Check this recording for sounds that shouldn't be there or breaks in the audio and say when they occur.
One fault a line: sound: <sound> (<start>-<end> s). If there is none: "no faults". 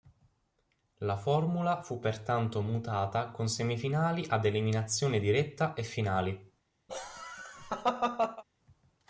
sound: laugh (6.9-8.4 s)